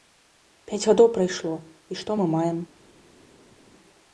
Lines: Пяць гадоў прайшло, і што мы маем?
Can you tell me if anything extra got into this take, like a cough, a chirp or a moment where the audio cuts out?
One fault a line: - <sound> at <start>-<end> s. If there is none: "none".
none